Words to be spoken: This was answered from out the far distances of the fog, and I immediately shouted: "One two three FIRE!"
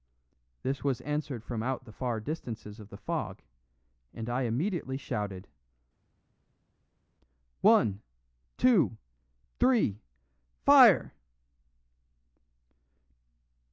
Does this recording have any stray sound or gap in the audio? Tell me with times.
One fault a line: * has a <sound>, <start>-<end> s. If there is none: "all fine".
all fine